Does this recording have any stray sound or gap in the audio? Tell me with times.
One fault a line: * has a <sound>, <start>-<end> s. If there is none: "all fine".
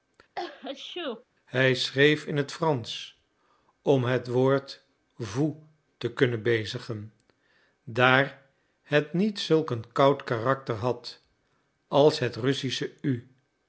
* has a sneeze, 0.3-1.2 s